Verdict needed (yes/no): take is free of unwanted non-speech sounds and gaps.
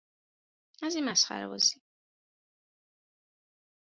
yes